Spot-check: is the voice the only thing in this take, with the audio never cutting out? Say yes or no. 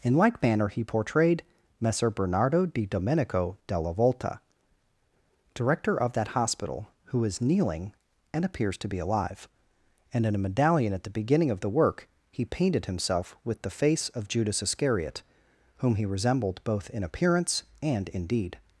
yes